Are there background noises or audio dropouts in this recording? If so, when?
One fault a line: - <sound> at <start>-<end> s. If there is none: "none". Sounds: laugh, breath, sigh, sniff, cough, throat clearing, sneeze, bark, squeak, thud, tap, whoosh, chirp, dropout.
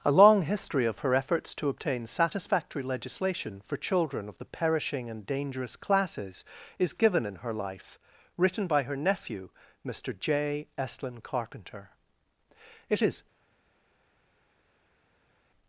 none